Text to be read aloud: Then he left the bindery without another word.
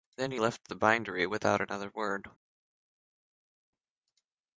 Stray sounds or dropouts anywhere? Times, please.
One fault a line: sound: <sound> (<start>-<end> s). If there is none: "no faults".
no faults